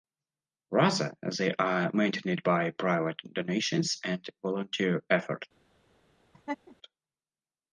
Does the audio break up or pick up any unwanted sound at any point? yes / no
yes